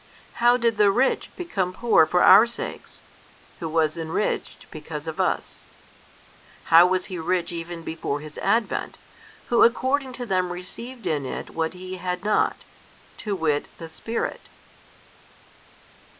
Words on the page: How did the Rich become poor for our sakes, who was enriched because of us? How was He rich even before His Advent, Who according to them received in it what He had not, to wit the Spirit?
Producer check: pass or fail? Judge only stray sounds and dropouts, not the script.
pass